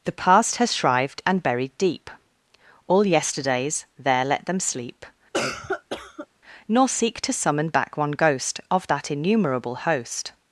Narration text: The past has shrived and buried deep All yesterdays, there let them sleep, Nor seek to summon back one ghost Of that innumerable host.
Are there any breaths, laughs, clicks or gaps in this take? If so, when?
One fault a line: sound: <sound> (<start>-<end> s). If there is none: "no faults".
sound: cough (5.3-6.3 s)